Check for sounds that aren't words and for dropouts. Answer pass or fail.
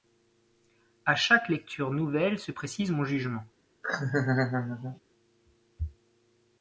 fail